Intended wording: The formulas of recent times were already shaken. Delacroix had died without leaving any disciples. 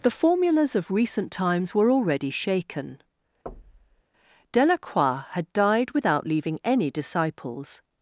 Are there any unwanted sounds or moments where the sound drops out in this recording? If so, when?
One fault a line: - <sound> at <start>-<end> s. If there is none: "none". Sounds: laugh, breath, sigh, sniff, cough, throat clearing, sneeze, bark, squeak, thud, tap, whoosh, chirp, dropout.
- thud at 3.5-4.0 s